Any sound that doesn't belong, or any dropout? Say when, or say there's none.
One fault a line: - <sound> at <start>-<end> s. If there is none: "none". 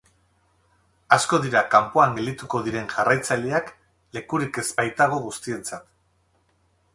none